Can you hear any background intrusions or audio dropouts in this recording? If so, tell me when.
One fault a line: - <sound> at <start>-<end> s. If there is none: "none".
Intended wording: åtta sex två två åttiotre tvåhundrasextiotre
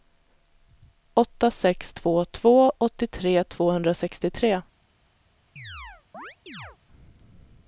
- chirp at 5.6-6.8 s